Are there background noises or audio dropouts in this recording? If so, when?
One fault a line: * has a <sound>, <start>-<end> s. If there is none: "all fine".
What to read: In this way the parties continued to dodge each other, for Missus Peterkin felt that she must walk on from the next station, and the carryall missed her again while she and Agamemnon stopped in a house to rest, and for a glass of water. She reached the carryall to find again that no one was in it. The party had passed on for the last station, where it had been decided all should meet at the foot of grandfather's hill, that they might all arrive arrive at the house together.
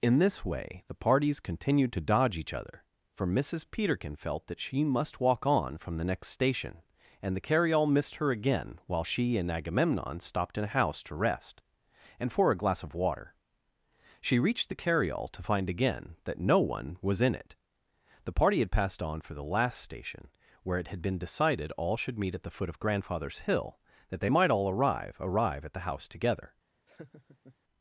* has a laugh, 26.9-27.6 s